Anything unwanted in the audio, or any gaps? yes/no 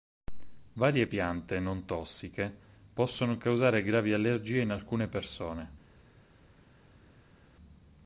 no